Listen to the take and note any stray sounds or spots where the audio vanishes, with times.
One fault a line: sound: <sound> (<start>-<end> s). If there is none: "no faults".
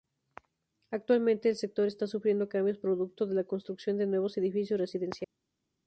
no faults